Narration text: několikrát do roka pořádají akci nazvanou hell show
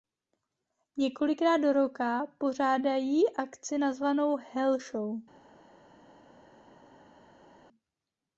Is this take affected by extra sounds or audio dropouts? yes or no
no